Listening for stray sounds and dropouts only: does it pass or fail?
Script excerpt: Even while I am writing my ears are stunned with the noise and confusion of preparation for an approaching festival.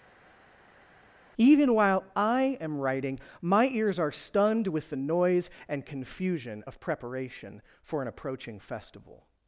pass